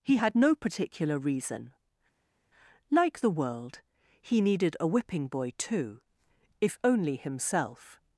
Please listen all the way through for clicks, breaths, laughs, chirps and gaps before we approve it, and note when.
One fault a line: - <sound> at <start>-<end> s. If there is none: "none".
none